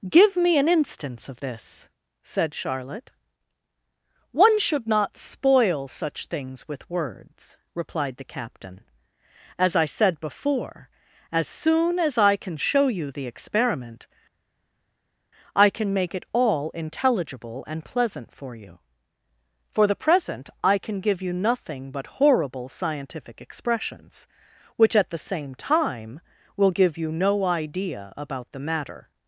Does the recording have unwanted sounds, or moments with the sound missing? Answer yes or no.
no